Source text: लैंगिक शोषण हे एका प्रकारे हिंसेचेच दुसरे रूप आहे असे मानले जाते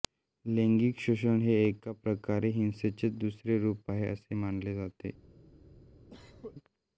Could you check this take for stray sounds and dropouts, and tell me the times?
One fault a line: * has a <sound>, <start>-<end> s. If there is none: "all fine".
* has a cough, 6.1-6.5 s